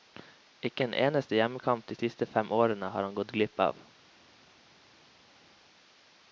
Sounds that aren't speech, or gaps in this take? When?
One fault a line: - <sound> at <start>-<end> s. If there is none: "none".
none